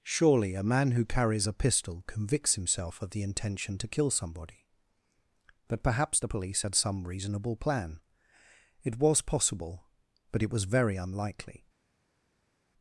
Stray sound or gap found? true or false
false